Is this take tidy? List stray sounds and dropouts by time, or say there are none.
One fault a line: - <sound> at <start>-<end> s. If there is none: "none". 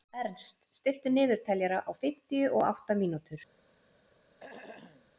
- throat clearing at 4.4-5.1 s